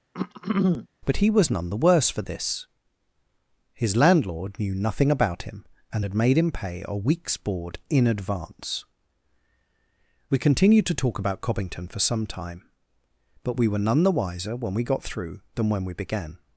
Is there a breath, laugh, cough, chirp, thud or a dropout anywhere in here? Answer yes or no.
yes